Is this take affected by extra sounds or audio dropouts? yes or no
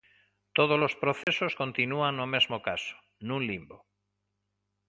yes